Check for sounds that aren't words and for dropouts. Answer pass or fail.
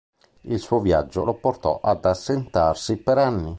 pass